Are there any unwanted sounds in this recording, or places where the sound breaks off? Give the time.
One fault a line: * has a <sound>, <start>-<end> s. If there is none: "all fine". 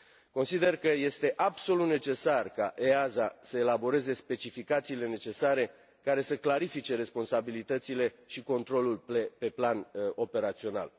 all fine